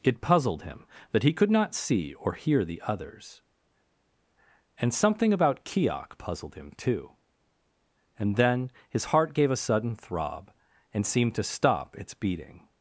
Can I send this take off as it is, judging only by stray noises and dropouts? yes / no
yes